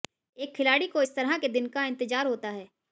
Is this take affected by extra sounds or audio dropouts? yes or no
no